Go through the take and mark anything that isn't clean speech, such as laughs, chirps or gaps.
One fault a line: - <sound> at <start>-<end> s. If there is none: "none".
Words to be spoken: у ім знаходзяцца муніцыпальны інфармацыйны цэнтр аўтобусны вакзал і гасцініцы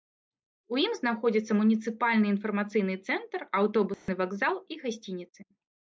- dropout at 3.9-4.1 s